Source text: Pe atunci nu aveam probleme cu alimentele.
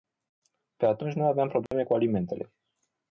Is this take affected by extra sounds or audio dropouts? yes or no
yes